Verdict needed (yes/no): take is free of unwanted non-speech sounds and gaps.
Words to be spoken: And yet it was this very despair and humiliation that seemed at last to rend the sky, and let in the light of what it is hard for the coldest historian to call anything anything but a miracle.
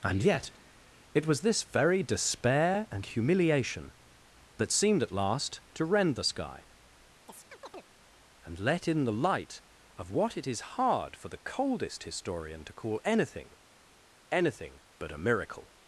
no